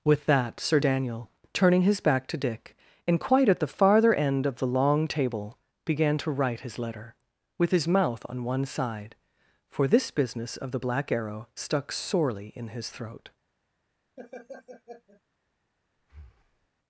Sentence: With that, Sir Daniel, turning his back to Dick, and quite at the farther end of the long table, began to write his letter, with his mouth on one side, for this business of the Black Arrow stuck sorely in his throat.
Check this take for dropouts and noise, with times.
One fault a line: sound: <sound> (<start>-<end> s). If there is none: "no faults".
sound: laugh (14.2-15.2 s)
sound: breath (16.0-16.7 s)